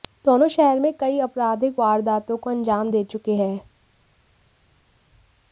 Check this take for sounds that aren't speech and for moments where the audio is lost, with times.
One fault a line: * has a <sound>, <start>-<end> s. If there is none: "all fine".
all fine